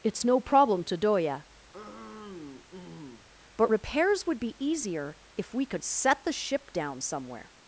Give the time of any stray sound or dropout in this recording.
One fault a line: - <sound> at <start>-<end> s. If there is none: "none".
- throat clearing at 1.7-3.3 s